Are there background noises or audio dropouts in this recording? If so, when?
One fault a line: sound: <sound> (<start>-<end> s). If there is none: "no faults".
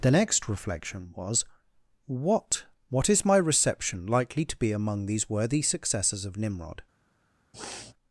sound: sniff (7.5-7.9 s)